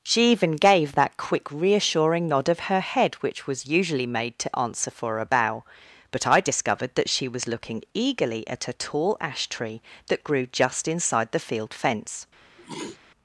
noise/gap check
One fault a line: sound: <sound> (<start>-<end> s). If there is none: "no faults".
sound: sneeze (12.6-13.0 s)